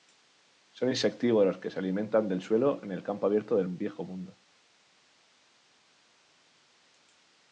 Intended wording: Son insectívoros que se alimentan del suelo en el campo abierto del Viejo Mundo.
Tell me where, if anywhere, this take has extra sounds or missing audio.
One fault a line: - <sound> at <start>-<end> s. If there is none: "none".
none